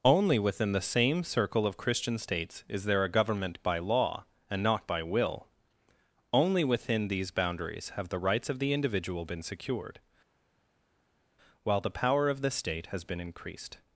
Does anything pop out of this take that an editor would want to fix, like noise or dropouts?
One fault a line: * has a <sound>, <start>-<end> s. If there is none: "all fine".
all fine